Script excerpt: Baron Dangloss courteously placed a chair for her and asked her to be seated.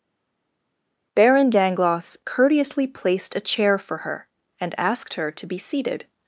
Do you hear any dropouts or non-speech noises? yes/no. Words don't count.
no